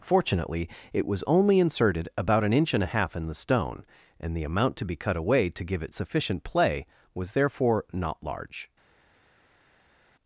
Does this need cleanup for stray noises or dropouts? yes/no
no